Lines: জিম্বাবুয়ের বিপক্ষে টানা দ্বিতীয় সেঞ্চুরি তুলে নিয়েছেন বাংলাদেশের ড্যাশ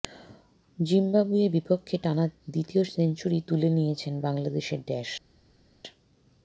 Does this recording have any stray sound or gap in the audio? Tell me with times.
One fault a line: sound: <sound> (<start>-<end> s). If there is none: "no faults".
no faults